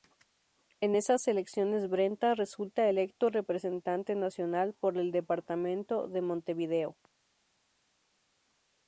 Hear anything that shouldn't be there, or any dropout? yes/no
no